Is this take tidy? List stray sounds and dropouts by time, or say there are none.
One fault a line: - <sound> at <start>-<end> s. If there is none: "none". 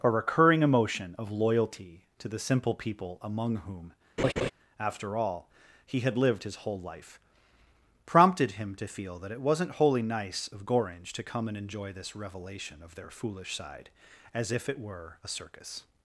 - laugh at 4.2-4.5 s